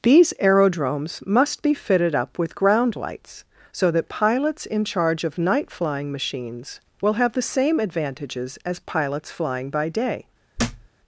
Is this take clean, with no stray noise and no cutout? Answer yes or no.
no